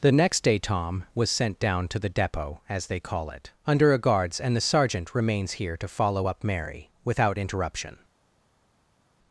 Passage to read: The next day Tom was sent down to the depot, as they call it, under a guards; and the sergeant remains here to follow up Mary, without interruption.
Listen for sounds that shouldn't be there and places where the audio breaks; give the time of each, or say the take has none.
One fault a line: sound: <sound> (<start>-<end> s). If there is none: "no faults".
no faults